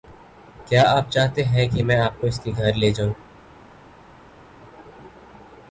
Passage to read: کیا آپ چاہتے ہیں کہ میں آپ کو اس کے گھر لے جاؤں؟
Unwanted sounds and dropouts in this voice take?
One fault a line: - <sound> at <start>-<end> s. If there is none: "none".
none